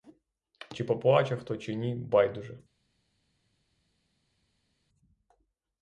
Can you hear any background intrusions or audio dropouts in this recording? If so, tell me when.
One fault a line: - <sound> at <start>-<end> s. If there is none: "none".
none